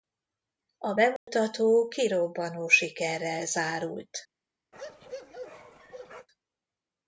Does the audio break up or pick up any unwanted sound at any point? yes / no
yes